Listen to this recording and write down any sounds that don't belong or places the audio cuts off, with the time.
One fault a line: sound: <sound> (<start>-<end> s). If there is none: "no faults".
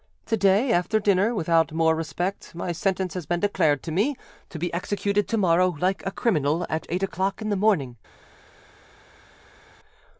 no faults